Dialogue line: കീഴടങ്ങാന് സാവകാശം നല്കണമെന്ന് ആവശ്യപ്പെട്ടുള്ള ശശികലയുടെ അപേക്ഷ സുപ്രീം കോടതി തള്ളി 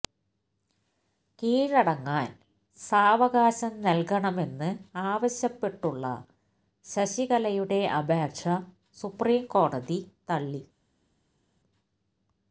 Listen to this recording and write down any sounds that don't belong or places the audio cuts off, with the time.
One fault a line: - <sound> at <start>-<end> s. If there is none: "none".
none